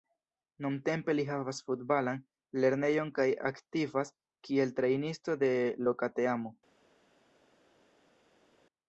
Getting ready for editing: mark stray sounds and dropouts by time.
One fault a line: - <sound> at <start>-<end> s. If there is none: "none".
none